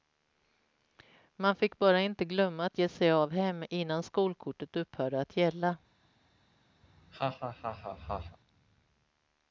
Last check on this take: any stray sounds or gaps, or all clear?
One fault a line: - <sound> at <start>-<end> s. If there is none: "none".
- laugh at 6.8-8.4 s